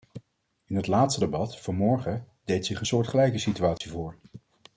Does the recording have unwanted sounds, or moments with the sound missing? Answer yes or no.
yes